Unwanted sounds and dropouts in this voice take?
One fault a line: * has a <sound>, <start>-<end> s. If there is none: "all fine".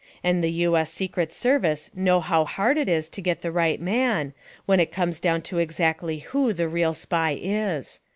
all fine